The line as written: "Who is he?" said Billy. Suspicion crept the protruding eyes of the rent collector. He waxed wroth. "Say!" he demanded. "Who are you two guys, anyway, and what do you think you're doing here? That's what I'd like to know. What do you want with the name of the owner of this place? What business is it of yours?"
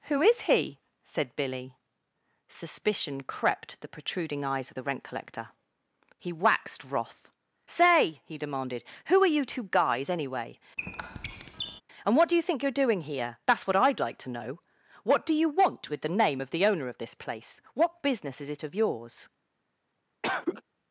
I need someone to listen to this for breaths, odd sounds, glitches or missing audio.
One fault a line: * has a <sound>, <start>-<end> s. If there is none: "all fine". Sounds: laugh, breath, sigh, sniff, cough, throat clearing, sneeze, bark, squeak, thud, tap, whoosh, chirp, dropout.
* has a squeak, 10.8-11.8 s
* has a cough, 20.2-20.6 s